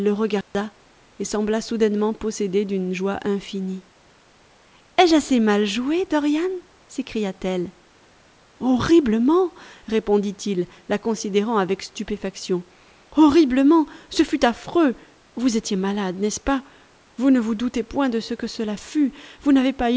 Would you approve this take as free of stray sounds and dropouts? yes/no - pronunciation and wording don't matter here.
no